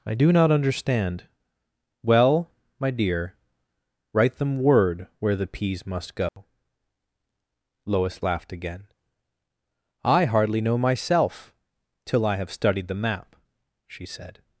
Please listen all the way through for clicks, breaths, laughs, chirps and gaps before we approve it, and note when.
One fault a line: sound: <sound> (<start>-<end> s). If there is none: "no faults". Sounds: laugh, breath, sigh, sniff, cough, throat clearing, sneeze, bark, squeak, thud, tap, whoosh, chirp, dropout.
sound: dropout (6.3-6.4 s)